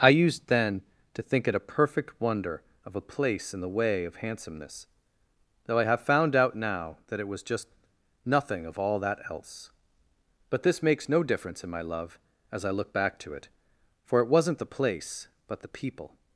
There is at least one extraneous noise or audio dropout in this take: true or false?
false